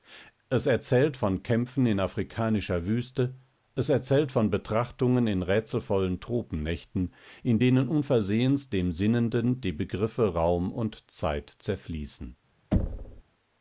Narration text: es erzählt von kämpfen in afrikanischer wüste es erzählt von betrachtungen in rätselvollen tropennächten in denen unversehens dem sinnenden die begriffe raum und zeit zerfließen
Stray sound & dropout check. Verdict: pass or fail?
fail